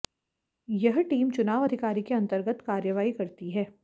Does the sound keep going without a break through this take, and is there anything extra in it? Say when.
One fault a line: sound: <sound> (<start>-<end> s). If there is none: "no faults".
no faults